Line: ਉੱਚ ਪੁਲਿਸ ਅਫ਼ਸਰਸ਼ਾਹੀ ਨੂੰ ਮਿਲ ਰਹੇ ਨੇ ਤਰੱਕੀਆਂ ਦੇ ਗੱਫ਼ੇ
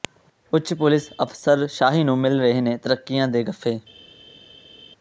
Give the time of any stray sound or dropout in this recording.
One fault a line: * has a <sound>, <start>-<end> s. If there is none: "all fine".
all fine